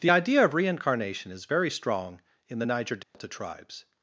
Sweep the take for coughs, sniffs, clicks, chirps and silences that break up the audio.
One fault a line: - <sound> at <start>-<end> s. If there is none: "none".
- dropout at 3.0-3.1 s